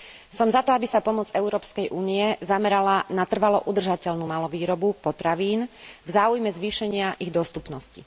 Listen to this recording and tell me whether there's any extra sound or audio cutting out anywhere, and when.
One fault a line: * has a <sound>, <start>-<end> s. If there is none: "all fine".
all fine